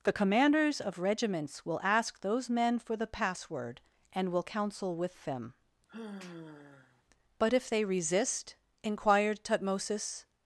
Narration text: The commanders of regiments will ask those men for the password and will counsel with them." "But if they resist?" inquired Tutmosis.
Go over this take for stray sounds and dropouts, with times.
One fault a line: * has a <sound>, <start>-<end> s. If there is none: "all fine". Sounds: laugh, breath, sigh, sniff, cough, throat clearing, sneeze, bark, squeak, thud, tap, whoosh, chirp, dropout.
* has a sigh, 5.9-7.0 s